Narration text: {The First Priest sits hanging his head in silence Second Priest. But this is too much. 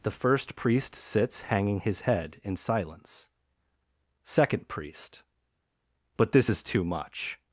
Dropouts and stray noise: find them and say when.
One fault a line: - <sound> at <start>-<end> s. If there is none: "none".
none